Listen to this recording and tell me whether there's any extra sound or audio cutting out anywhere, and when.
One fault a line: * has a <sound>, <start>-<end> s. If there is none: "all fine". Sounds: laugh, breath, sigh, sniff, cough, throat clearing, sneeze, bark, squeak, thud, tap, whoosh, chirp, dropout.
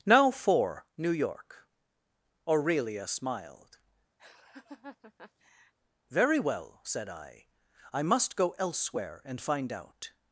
* has a laugh, 4.2-5.7 s